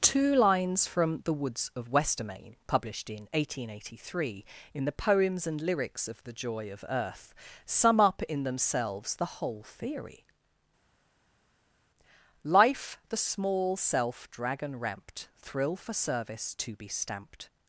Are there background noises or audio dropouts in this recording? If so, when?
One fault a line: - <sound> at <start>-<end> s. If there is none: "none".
none